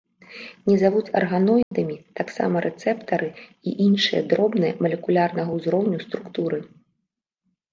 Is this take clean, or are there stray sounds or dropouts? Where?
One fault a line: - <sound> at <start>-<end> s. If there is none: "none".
- dropout at 1.6-1.7 s